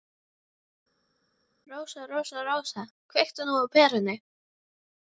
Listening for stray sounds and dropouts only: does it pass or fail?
pass